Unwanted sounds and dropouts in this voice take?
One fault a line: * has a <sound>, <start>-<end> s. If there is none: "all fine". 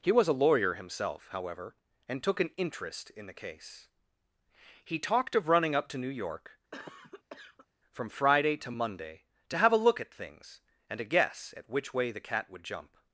* has a cough, 6.7-7.7 s